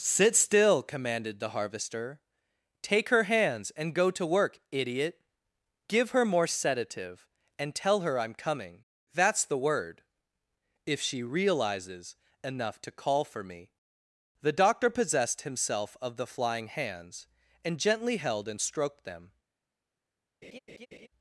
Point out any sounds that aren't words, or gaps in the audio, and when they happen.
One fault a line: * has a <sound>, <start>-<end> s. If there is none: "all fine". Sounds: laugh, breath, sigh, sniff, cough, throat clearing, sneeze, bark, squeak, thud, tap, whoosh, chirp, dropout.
* has a laugh, 20.4-21.1 s